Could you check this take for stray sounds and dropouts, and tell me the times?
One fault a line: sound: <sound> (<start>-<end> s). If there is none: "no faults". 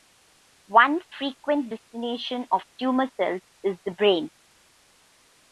no faults